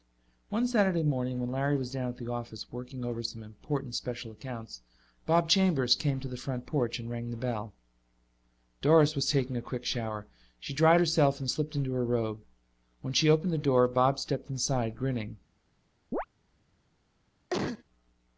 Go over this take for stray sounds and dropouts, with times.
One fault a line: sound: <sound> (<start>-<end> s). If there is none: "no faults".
sound: chirp (16.1-16.3 s)
sound: cough (17.5-17.8 s)